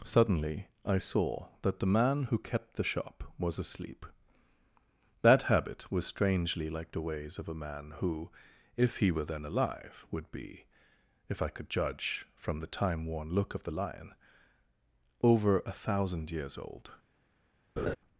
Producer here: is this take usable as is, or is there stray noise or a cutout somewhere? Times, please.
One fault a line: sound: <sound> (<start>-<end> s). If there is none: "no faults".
sound: laugh (17.8-18.0 s)